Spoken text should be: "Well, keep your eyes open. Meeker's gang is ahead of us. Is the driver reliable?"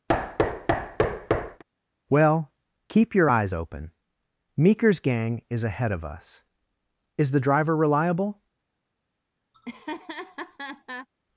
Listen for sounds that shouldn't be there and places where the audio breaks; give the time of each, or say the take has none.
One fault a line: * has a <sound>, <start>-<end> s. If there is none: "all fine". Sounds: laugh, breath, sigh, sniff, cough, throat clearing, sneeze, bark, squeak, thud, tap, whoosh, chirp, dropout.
* has a thud, 0.1-1.6 s
* has a laugh, 9.5-11.1 s